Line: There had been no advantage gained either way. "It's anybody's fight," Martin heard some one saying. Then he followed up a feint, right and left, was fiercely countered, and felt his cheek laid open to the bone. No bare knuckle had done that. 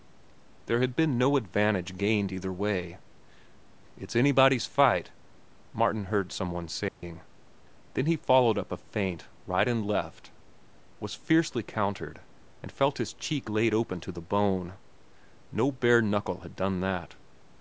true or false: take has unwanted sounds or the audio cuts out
true